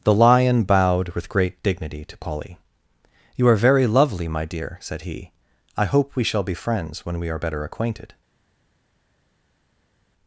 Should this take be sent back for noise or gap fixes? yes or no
no